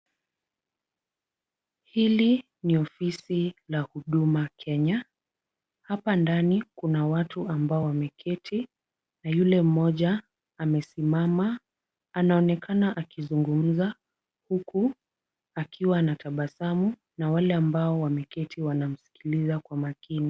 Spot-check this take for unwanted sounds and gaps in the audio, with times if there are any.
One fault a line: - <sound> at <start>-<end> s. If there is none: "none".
none